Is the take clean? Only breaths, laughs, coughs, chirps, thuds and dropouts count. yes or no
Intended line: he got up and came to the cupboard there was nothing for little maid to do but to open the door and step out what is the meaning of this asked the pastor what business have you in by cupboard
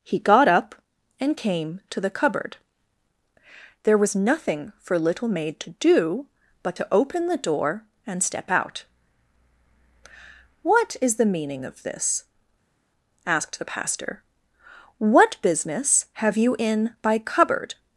yes